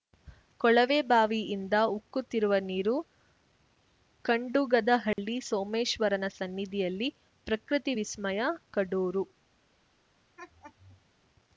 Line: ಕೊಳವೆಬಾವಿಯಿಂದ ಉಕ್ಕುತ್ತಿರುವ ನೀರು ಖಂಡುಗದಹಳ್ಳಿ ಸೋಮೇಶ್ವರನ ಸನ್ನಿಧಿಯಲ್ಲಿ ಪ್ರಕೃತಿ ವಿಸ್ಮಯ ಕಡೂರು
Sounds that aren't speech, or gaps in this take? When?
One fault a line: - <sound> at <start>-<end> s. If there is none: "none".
- dropout at 5.1-5.2 s
- laugh at 10.4-11.0 s